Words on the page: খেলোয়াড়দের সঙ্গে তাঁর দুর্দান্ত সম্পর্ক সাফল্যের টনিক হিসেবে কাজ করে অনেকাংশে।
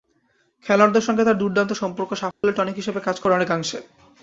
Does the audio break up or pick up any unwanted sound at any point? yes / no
yes